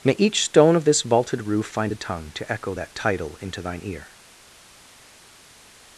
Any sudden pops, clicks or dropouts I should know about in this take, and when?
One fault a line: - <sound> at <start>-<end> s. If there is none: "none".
none